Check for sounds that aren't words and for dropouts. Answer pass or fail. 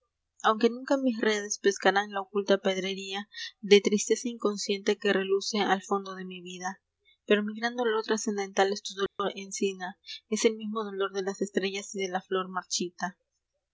fail